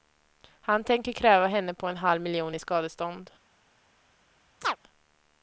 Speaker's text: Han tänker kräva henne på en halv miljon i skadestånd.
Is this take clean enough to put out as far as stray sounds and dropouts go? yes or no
no